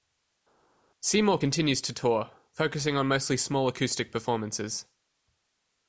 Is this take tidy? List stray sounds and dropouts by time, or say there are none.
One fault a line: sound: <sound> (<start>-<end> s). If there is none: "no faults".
no faults